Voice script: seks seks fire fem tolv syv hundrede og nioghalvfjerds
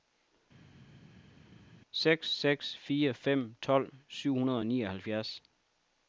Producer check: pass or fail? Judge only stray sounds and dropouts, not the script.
pass